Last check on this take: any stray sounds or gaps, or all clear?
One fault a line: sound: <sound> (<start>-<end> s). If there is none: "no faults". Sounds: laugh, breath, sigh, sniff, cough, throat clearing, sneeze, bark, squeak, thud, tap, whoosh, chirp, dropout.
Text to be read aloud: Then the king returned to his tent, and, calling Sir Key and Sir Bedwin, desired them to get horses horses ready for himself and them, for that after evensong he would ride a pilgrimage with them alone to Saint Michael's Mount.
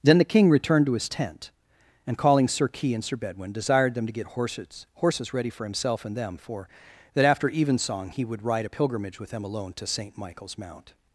no faults